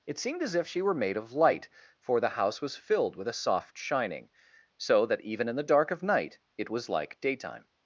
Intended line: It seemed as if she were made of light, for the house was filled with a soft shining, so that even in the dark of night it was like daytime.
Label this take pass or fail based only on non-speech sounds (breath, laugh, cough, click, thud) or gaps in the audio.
pass